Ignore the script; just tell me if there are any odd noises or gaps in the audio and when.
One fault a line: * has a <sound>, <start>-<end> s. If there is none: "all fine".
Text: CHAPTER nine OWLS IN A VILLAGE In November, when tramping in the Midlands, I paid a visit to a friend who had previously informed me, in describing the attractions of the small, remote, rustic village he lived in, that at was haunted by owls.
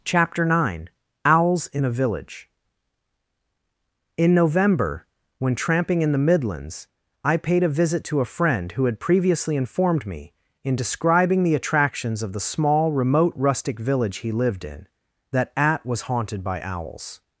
all fine